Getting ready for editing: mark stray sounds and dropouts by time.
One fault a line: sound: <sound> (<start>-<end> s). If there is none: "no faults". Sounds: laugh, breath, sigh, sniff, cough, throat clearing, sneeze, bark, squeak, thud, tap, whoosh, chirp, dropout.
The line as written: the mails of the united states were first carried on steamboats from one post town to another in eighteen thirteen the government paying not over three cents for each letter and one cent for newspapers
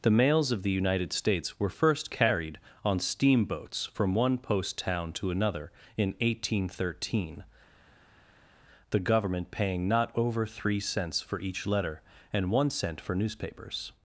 no faults